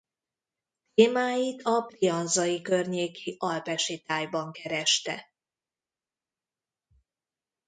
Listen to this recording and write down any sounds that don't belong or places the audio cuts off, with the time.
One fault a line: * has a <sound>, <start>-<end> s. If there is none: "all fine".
all fine